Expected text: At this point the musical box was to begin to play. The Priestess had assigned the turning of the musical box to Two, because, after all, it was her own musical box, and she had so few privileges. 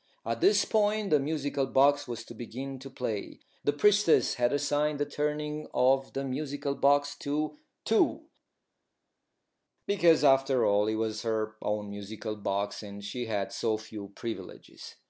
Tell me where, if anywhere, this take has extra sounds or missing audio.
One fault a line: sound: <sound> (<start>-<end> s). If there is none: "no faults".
no faults